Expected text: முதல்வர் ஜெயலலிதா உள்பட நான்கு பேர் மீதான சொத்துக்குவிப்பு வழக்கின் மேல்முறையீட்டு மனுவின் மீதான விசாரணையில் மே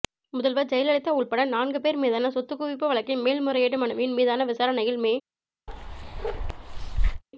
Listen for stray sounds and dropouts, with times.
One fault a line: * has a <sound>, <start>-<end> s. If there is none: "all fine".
* has a bark, 5.7-7.2 s